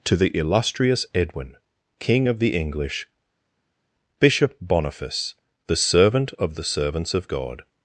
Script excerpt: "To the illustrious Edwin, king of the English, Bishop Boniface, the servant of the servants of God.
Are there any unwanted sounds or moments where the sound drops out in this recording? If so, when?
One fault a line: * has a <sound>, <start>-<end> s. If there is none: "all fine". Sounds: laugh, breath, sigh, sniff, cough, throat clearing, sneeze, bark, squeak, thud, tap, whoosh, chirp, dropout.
all fine